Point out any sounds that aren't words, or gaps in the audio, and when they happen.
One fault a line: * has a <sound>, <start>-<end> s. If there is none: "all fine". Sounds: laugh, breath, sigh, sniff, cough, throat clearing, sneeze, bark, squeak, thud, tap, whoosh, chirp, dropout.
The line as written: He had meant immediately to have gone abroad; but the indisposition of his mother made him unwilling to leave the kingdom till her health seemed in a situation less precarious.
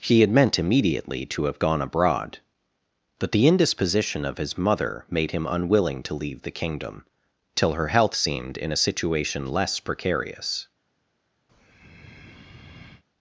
* has a breath, 11.5-13.0 s